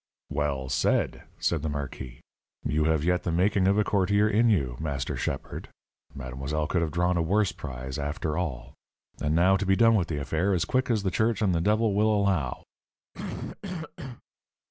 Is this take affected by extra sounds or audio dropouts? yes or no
yes